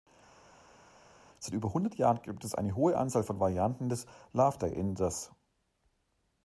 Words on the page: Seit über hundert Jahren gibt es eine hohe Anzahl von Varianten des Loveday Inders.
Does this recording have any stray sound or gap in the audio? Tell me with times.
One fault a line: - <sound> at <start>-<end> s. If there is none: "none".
none